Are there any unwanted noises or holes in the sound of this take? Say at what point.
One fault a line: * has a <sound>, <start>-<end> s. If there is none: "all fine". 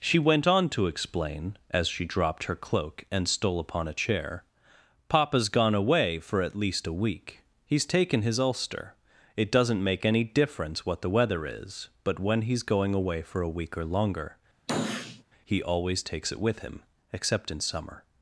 * has a sniff, 14.7-15.2 s